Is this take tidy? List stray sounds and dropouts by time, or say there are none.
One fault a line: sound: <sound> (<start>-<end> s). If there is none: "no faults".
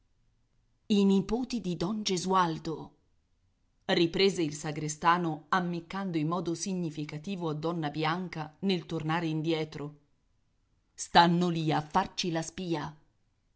no faults